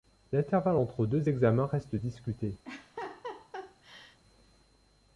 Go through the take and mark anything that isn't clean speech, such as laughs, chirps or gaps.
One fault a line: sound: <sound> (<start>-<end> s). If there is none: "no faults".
sound: laugh (2.6-4.2 s)